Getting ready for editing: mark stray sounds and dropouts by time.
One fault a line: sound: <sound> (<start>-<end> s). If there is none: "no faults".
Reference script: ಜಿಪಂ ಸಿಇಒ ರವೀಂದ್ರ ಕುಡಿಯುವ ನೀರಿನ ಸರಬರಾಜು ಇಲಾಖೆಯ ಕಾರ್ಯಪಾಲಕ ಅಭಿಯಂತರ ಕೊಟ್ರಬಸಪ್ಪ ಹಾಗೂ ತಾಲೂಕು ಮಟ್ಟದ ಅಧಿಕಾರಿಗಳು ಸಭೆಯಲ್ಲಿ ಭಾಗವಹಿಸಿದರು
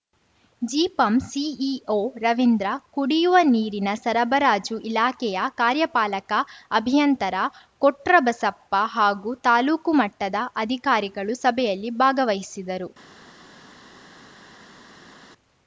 no faults